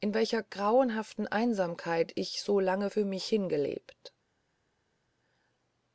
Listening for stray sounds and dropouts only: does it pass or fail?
pass